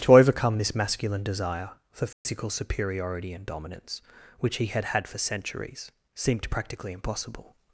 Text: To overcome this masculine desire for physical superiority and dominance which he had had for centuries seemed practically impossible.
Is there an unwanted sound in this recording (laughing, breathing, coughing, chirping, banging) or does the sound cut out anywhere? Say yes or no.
yes